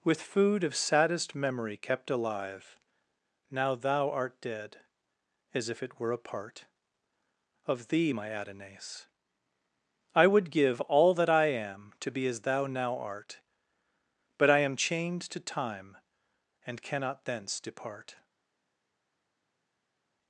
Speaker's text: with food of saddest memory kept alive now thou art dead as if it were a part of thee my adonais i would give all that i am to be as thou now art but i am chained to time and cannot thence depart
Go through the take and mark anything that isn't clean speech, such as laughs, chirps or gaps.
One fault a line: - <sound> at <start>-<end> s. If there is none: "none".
none